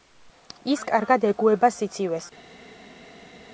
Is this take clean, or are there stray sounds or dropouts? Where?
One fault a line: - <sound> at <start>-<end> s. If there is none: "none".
none